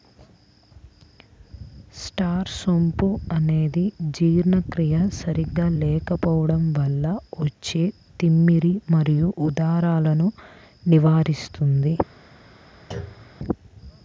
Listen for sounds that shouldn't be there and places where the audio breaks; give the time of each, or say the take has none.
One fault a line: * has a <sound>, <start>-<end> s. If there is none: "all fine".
* has a thud, 12.9-13.4 s